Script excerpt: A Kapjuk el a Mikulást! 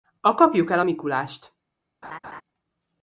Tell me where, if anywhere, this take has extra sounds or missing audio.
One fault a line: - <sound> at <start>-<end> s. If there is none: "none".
- laugh at 2.0-2.4 s